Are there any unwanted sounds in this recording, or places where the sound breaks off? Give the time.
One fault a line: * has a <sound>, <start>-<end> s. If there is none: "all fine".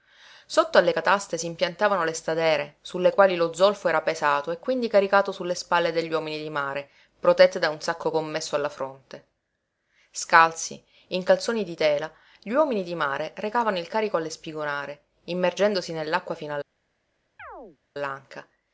* has a chirp, 17.4-17.8 s